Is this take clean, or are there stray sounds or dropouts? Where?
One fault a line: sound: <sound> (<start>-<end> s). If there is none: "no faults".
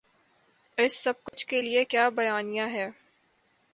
sound: dropout (1.3-1.3 s)